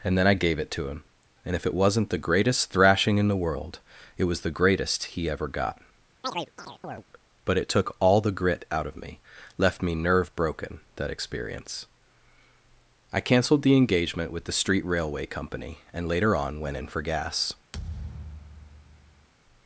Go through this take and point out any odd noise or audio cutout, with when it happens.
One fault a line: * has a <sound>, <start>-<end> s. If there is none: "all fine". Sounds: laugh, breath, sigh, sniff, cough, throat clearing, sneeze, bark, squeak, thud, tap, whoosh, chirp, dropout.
* has a chirp, 6.2-7.0 s
* has a thud, 17.7-19.3 s